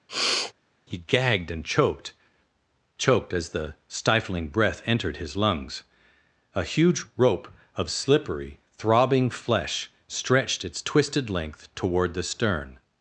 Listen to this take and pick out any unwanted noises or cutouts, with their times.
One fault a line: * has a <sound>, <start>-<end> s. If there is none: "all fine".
* has a sniff, 0.1-0.5 s